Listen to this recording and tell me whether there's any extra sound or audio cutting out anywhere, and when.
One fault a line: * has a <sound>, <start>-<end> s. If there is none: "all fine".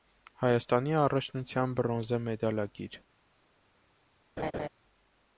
* has a laugh, 4.4-4.7 s